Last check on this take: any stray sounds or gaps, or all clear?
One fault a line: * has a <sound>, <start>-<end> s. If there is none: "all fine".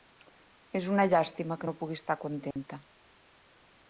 * has a dropout, 2.5-2.6 s